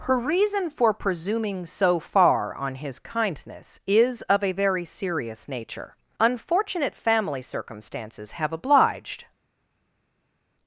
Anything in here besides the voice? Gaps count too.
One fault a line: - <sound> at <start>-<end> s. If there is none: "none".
none